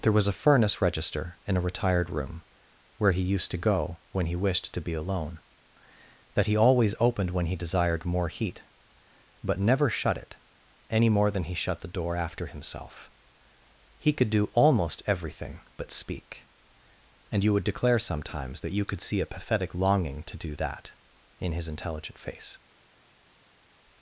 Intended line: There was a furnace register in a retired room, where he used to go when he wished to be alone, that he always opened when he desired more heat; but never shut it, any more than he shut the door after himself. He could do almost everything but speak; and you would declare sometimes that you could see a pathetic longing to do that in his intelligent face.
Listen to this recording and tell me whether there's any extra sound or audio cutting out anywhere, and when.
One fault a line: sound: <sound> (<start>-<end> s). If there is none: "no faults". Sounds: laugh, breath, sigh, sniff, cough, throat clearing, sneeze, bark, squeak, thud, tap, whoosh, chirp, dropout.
no faults